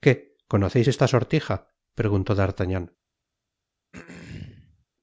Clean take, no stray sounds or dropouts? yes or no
no